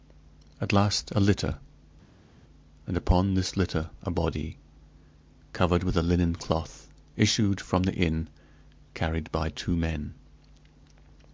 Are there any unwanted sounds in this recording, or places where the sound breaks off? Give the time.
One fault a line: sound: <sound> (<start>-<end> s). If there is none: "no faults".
no faults